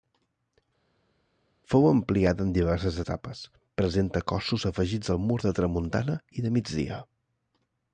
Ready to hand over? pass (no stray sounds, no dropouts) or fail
pass